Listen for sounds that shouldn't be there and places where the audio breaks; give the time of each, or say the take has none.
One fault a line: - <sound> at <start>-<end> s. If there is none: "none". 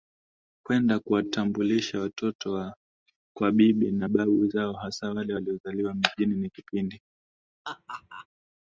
- laugh at 7.6-8.3 s